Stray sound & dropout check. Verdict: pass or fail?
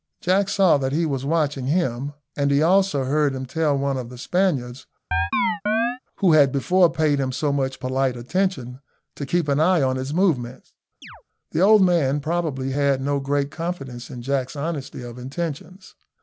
fail